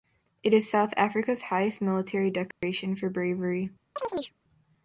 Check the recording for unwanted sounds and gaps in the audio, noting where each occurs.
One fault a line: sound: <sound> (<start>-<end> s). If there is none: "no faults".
sound: dropout (2.5-2.6 s)
sound: chirp (4.0-4.3 s)